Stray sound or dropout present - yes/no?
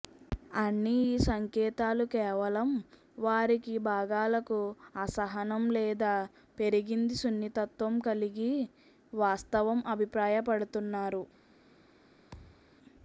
yes